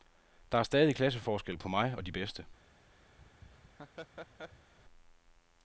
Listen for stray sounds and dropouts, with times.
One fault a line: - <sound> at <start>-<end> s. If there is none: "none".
- laugh at 3.2-4.7 s